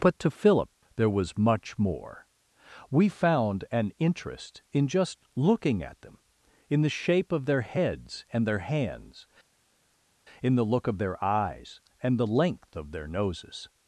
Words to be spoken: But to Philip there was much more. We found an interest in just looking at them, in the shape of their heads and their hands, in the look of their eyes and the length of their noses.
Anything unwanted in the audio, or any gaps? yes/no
no